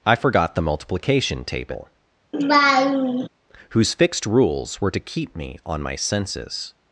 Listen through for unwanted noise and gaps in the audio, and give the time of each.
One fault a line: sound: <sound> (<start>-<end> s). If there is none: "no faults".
sound: laugh (2.3-3.3 s)